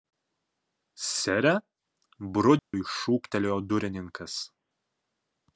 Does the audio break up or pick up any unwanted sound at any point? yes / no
yes